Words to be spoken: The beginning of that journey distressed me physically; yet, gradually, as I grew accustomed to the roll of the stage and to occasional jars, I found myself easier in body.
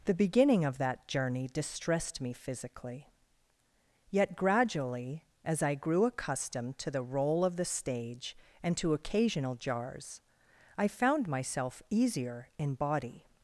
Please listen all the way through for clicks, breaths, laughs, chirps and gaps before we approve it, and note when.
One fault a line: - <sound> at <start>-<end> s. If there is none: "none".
none